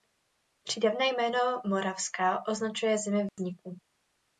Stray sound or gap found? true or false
true